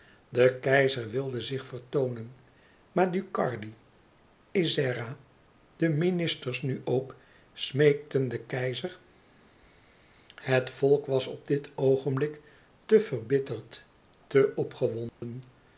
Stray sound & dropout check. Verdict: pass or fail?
fail